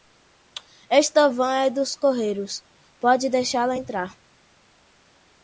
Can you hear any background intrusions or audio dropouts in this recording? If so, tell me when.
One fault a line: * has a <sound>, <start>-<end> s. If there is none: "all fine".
all fine